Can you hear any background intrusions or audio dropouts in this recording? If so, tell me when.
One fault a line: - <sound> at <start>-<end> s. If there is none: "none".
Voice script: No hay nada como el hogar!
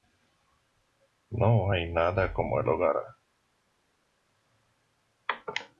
none